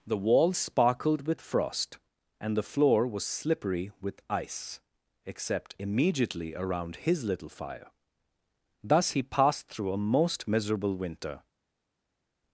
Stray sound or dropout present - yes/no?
no